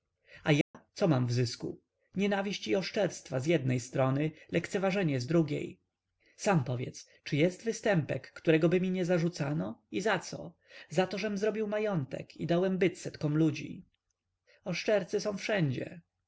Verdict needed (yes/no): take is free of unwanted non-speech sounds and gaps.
no